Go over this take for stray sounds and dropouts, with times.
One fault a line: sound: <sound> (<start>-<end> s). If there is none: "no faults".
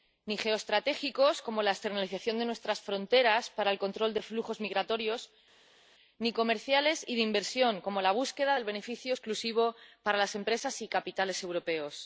no faults